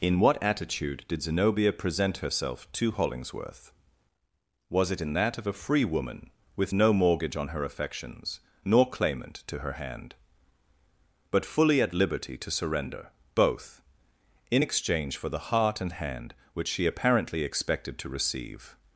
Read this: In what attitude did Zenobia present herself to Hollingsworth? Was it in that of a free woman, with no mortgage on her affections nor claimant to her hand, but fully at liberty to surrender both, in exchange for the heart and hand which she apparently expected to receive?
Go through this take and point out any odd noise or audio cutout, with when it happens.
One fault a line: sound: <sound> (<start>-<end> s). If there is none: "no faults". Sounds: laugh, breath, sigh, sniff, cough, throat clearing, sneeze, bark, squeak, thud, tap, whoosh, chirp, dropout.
no faults